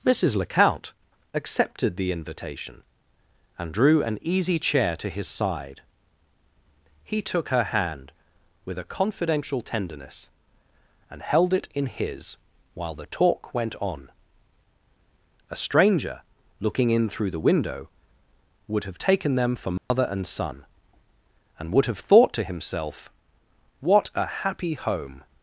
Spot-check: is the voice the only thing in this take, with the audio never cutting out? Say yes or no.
no